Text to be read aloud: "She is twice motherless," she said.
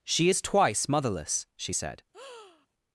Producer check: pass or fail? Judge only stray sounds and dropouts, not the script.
fail